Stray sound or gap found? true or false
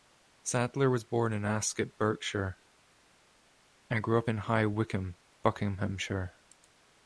false